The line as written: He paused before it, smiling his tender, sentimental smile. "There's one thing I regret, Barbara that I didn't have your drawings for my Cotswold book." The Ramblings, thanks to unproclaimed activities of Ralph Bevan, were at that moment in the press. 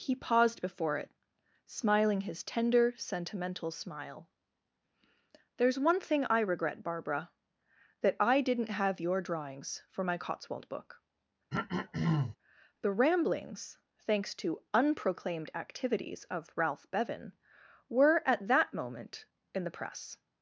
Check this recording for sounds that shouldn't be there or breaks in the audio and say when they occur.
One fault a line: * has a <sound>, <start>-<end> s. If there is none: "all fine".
* has a throat clearing, 11.5-12.4 s